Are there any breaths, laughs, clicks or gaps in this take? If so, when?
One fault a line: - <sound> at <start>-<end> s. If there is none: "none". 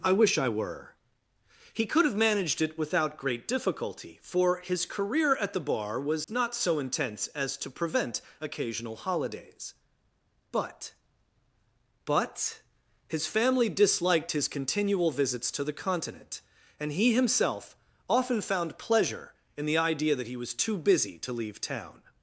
- dropout at 6.2-6.3 s